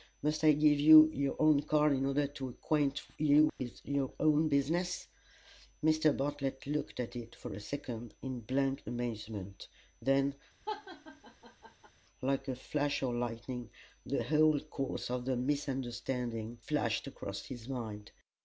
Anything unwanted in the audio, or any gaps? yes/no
yes